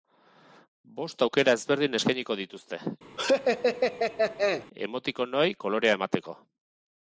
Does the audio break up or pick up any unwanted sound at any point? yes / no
yes